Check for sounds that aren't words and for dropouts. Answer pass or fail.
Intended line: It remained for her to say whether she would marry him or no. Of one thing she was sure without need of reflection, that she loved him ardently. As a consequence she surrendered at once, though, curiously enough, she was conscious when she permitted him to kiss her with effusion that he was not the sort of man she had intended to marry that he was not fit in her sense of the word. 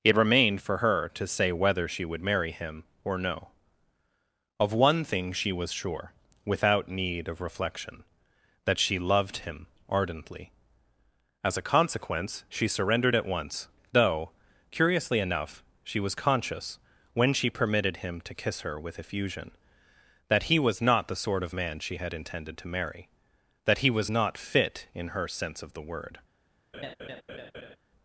fail